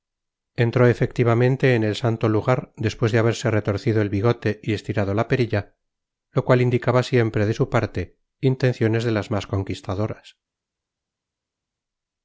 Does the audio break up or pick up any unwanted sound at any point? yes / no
no